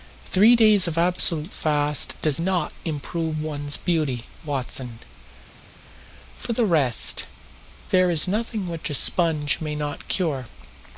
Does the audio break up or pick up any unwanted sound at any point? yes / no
no